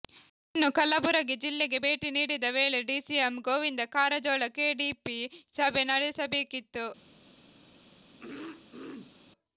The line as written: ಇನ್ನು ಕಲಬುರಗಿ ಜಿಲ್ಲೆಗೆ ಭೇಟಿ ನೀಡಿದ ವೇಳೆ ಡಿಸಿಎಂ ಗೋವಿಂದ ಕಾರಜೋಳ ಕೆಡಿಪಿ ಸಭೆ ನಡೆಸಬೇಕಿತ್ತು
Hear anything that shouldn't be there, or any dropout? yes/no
yes